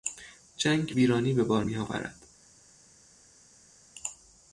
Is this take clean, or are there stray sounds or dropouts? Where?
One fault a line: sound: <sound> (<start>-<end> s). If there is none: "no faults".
no faults